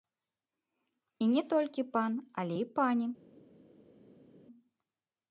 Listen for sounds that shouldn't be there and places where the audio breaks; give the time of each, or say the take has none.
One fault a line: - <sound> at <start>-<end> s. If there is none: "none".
none